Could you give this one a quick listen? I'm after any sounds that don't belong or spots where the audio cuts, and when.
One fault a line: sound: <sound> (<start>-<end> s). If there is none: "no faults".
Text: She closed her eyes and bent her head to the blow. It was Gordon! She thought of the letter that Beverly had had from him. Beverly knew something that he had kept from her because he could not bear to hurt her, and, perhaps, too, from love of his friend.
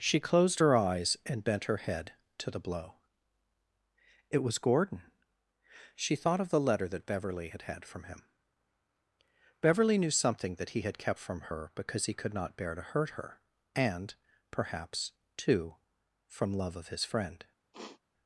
sound: sniff (17.7-18.0 s)